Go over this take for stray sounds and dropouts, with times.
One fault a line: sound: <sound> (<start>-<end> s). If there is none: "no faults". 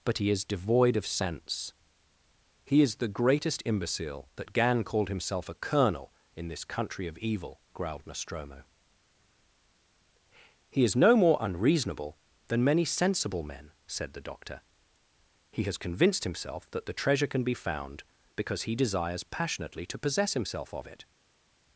no faults